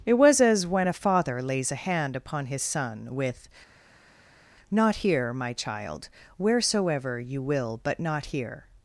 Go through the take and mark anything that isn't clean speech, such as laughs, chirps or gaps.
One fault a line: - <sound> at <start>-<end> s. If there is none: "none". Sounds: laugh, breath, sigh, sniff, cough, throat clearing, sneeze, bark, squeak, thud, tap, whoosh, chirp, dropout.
none